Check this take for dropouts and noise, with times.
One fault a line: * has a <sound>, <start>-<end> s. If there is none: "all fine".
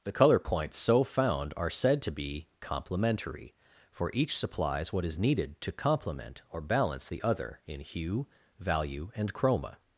all fine